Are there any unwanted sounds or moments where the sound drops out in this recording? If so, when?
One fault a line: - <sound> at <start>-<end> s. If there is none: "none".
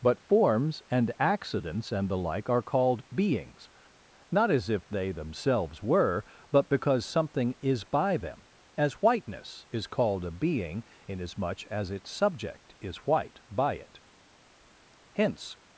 none